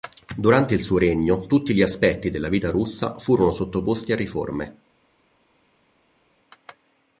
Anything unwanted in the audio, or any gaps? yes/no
no